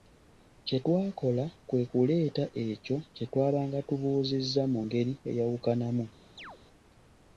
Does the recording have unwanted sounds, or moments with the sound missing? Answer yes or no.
yes